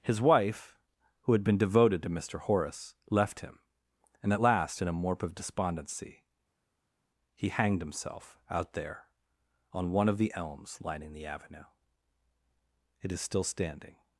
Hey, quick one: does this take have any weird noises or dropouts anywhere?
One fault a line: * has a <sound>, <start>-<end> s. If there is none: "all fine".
all fine